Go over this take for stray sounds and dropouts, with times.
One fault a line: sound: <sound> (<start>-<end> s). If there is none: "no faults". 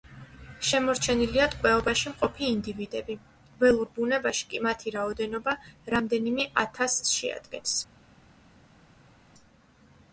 no faults